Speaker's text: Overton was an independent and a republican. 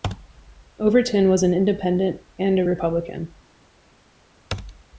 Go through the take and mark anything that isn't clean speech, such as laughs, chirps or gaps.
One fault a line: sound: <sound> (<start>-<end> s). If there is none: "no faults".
no faults